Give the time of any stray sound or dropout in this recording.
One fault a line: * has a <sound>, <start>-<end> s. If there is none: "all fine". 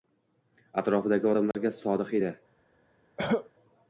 * has a dropout, 1.5-1.5 s
* has a cough, 3.2-3.5 s